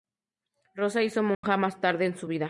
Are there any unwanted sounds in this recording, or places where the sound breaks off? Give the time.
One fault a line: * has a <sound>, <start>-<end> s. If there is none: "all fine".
* has a dropout, 1.3-1.4 s